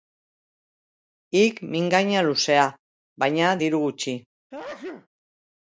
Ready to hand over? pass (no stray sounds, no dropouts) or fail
fail